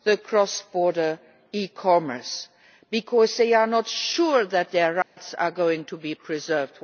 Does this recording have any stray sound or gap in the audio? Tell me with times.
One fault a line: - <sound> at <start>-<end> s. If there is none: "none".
- dropout at 5.0-5.2 s